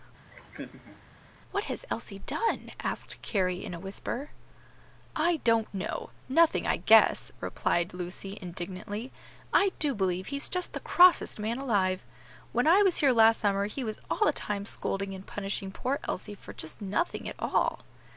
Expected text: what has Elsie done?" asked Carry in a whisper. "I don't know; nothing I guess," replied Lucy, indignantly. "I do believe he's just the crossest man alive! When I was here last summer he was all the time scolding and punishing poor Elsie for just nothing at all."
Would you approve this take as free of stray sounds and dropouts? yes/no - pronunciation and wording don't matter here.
no